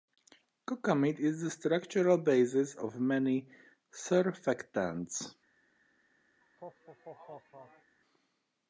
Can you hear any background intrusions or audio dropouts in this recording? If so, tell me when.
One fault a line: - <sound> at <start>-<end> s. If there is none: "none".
- laugh at 6.4-8.0 s